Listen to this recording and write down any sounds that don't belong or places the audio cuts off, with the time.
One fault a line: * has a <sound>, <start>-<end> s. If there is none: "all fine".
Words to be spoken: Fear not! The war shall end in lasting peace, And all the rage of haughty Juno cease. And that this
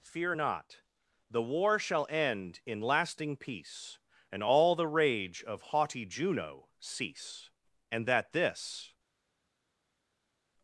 all fine